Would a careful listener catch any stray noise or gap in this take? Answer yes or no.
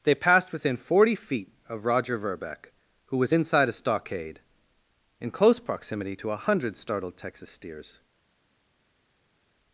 no